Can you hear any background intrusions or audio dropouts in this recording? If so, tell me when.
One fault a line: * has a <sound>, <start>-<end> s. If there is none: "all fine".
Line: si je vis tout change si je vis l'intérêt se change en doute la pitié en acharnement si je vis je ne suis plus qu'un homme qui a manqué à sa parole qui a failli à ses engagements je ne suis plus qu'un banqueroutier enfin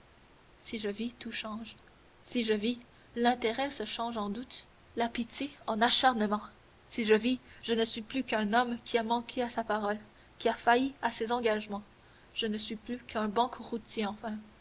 all fine